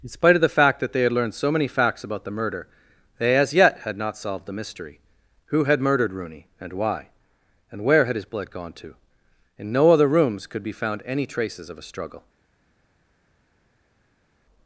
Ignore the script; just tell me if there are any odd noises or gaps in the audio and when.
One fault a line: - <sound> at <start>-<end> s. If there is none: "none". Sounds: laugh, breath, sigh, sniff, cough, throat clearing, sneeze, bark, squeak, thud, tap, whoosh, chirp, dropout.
none